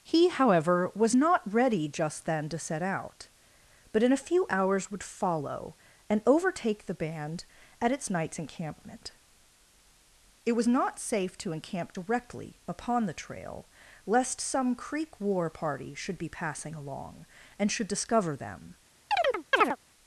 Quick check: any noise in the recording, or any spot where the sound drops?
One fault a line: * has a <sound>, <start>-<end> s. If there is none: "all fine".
* has a chirp, 19.1-19.8 s